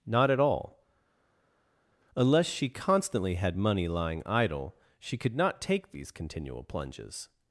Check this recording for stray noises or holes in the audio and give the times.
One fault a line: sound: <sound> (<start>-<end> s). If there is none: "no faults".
no faults